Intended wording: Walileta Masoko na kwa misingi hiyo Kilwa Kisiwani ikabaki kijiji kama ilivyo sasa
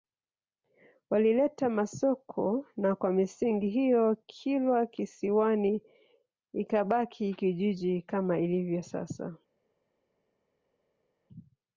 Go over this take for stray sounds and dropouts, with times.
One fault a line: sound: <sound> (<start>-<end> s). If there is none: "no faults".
no faults